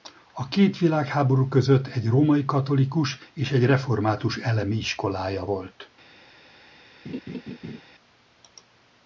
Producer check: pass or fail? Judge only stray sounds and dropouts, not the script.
fail